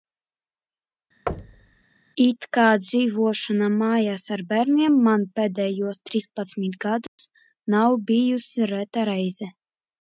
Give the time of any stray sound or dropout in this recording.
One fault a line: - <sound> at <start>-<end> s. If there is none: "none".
- thud at 1.3-1.8 s
- dropout at 7.1-7.2 s